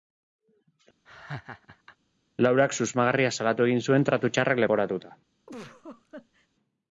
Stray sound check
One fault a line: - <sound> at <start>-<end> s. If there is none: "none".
- laugh at 1.1-2.0 s
- laugh at 5.5-6.5 s